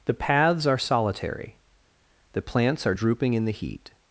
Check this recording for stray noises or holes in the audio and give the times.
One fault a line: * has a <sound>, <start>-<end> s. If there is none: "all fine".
all fine